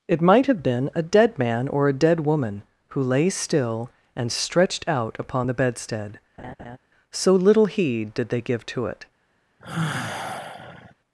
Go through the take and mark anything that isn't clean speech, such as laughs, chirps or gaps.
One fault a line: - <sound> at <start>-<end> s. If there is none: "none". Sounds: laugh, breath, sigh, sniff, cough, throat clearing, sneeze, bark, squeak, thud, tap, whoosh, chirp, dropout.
- laugh at 6.4-6.8 s
- sigh at 9.6-10.9 s